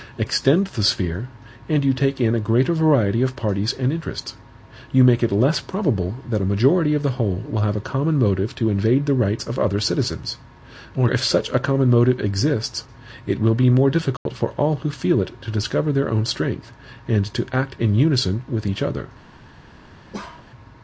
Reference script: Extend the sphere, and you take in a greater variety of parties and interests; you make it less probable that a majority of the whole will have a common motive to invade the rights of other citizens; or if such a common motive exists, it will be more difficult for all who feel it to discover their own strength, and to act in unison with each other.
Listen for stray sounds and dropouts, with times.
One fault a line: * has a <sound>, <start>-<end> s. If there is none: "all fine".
* has a dropout, 14.2-14.3 s
* has a bark, 20.1-20.5 s